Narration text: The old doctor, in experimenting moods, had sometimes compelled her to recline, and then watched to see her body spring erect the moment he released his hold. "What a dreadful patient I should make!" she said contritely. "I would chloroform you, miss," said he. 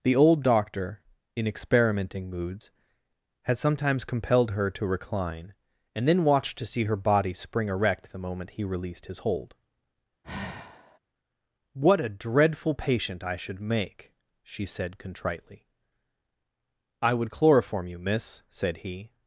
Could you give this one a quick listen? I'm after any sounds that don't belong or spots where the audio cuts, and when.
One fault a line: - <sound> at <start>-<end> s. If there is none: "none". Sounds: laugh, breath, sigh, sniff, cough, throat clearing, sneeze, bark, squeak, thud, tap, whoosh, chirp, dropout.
- sigh at 10.2-11.0 s